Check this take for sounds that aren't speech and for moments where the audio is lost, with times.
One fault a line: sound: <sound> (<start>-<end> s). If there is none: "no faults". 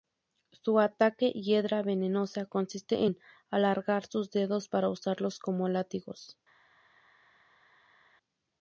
no faults